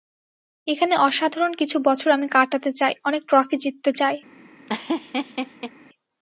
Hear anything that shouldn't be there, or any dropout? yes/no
yes